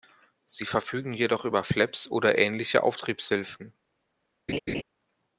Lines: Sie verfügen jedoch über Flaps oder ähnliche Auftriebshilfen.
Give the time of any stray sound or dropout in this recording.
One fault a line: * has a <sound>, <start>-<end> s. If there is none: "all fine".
* has a laugh, 4.5-4.8 s